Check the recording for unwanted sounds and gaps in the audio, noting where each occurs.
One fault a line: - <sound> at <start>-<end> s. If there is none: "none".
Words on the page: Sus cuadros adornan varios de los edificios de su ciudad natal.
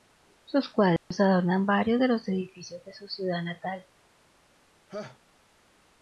- dropout at 1.0-1.1 s
- laugh at 4.9-5.2 s